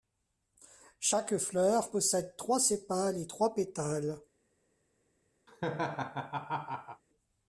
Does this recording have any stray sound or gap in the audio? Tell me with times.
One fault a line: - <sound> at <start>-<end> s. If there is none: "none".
- laugh at 5.5-7.0 s